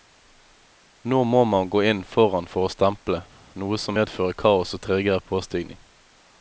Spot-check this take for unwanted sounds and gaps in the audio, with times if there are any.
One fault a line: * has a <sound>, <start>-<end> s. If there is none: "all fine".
all fine